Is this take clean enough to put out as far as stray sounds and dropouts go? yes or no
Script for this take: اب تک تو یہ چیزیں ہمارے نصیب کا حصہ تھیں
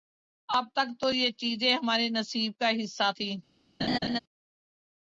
no